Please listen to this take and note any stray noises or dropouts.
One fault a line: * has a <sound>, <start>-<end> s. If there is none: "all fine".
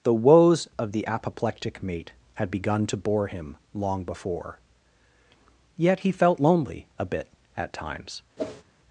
* has a whoosh, 8.4-8.6 s